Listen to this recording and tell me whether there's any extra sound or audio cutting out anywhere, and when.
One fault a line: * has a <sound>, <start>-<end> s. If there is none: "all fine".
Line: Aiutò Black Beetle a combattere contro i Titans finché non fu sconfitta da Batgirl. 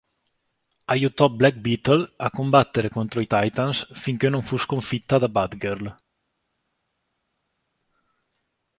all fine